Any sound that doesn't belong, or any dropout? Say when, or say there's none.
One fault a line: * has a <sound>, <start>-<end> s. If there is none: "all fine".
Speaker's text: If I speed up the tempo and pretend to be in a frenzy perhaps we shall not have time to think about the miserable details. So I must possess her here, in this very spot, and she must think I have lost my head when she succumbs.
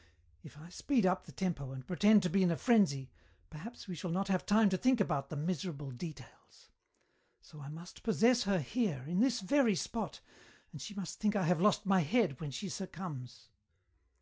all fine